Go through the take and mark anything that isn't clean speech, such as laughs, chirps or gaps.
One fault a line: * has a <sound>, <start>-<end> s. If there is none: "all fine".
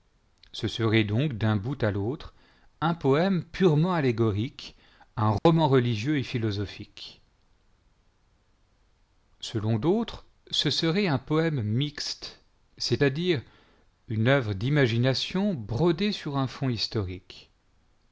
* has a dropout, 5.4-5.5 s